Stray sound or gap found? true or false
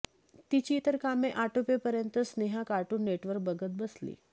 false